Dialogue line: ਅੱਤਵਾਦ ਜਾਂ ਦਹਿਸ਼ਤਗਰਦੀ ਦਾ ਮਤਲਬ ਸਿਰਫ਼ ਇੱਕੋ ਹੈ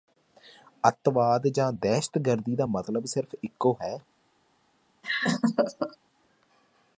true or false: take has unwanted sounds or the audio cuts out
true